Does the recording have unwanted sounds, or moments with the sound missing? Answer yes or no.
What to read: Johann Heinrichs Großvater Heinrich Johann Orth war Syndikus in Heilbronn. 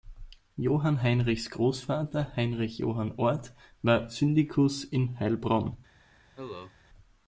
yes